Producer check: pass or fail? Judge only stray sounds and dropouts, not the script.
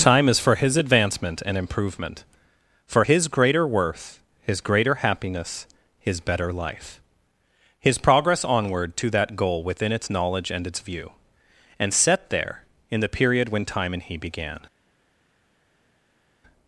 pass